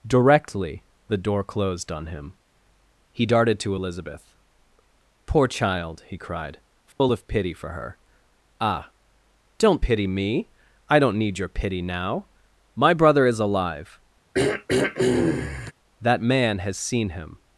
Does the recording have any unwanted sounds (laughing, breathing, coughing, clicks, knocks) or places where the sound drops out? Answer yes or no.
yes